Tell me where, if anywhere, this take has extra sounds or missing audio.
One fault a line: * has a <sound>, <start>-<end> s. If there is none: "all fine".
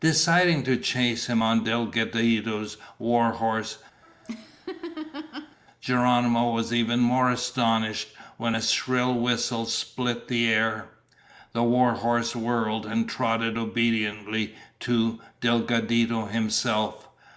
* has a laugh, 4.0-5.6 s